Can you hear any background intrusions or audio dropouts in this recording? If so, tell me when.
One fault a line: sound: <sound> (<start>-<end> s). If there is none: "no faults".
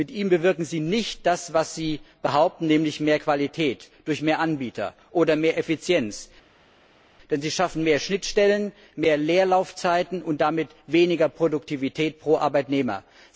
no faults